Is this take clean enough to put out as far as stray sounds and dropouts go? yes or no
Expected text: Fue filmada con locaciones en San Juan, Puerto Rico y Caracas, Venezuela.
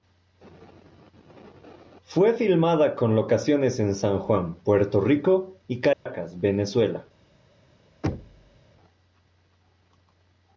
no